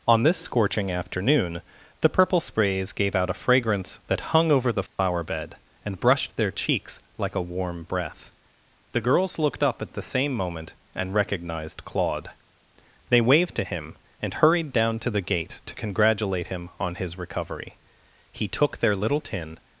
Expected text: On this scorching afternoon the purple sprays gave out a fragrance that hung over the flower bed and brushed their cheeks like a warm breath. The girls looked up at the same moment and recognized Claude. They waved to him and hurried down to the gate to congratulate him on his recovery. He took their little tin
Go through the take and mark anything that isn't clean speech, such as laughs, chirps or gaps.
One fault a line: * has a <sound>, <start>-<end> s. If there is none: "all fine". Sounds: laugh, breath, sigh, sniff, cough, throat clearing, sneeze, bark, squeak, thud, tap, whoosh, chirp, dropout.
* has a dropout, 4.9-5.0 s